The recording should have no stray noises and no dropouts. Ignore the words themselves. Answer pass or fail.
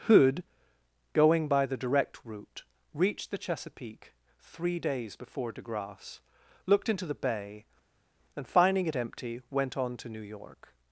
pass